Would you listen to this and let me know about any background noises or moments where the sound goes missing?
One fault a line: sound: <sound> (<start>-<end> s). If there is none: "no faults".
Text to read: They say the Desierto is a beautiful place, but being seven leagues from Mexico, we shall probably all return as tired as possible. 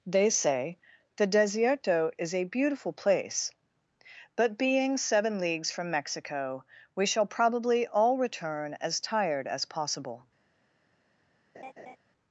sound: laugh (11.5-12.0 s)